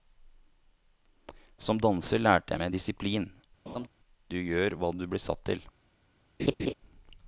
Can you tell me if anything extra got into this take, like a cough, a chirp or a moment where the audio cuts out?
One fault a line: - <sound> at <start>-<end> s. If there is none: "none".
- laugh at 3.7-3.9 s
- laugh at 6.4-6.7 s